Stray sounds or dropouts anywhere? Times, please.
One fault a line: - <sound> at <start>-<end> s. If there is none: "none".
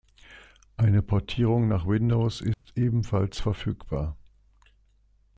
- dropout at 2.5-2.7 s